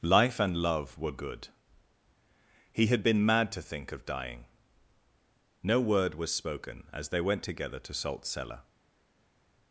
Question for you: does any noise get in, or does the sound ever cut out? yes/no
no